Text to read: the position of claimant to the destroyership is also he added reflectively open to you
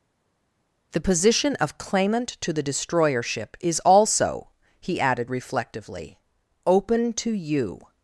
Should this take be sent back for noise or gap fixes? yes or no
no